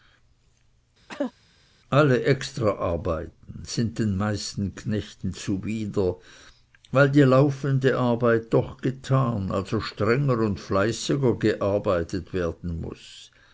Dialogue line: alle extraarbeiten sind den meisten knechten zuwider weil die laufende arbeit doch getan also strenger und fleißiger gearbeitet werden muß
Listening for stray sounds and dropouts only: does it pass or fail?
fail